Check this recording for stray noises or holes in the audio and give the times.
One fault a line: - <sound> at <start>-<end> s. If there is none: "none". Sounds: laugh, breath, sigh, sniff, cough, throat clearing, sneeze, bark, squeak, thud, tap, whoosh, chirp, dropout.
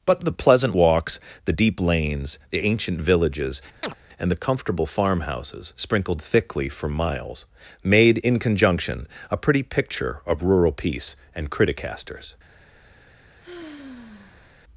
- chirp at 3.8-3.9 s
- sigh at 13.4-14.6 s